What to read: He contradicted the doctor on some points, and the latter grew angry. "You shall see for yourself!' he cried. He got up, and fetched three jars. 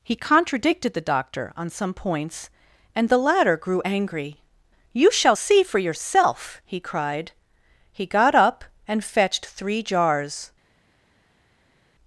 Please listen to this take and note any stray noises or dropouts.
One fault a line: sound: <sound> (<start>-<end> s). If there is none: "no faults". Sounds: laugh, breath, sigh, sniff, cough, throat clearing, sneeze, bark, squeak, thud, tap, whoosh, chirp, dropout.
no faults